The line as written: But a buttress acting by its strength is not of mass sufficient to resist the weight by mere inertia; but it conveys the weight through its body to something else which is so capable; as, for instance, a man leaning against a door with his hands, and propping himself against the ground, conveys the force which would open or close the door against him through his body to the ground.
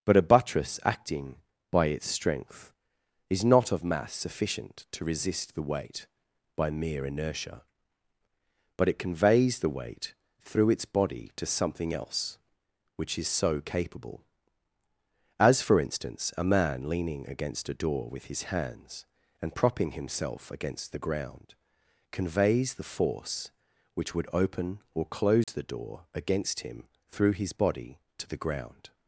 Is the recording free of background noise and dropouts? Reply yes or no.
no